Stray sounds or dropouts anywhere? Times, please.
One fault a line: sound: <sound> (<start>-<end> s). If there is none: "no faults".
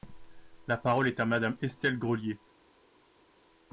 no faults